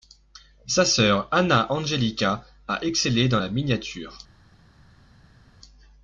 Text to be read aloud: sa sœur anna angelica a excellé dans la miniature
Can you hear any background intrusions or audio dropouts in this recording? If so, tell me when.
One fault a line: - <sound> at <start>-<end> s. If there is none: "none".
none